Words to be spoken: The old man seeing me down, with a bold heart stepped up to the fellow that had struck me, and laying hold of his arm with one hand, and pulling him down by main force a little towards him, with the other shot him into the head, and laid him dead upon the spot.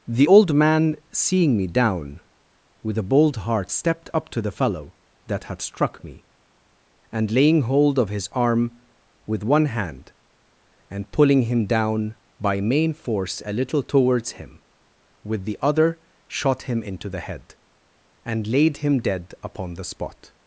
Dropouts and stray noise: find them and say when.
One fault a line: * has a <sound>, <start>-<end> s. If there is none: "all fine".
all fine